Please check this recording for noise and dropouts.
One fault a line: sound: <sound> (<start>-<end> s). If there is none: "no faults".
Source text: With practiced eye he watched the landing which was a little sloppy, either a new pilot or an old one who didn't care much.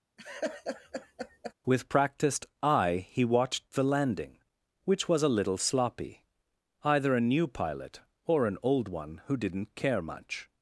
sound: laugh (0.2-1.5 s)